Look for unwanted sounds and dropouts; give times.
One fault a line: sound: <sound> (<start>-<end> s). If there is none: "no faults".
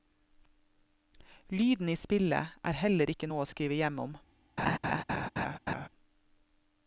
sound: laugh (4.6-5.9 s)